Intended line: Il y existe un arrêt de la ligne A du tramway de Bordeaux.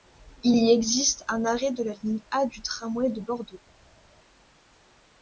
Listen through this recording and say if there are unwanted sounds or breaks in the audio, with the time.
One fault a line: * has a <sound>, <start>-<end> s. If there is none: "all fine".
all fine